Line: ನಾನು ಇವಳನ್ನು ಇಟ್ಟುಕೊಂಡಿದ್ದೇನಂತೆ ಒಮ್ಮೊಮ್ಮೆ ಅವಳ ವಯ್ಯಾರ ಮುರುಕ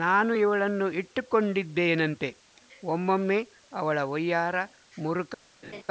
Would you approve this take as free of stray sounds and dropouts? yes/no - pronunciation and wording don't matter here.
no